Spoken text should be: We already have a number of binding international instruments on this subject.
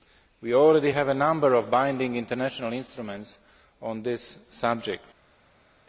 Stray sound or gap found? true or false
false